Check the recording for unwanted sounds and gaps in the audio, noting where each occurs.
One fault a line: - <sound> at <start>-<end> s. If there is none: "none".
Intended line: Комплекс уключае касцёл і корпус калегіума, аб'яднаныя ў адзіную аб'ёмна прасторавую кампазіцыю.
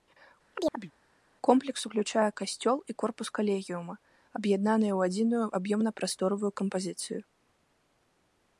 - chirp at 0.5-0.9 s